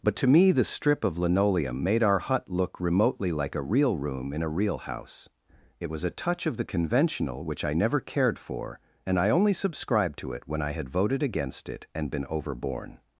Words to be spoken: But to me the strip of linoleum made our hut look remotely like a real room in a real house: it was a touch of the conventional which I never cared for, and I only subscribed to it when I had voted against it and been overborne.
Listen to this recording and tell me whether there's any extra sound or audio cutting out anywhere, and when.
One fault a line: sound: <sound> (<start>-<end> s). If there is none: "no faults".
no faults